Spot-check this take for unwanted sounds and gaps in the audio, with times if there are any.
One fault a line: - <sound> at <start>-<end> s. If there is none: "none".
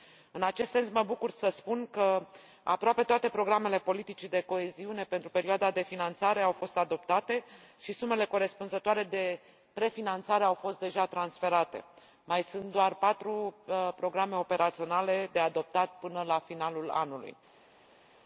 none